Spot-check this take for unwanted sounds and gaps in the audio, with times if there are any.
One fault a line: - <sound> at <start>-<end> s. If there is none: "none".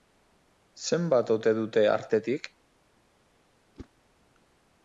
- whoosh at 3.8-3.9 s